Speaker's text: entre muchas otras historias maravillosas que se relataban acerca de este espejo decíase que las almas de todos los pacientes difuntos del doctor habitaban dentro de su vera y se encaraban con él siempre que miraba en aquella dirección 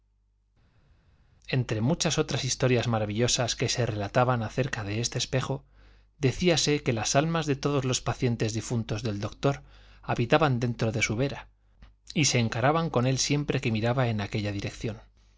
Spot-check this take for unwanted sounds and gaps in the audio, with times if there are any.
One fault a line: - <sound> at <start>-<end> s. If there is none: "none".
none